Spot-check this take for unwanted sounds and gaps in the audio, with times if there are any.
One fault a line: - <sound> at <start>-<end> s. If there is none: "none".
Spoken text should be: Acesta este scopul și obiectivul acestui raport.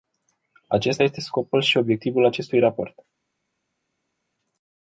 none